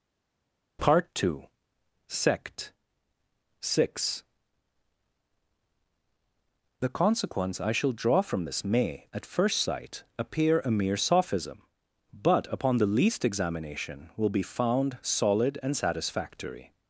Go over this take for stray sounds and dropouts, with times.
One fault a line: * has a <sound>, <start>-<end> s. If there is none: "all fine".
all fine